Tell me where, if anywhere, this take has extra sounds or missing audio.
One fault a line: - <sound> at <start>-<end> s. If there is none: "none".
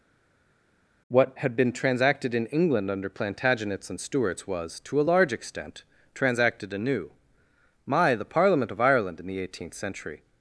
none